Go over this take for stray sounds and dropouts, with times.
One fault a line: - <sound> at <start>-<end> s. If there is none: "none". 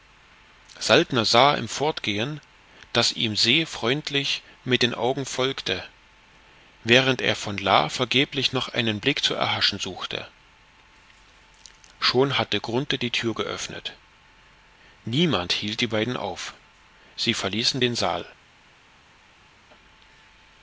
none